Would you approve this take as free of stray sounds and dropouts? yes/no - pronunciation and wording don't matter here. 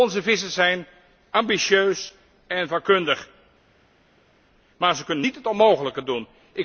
yes